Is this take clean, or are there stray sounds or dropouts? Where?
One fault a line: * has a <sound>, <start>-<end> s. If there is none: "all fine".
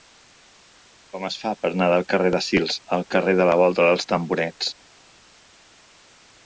all fine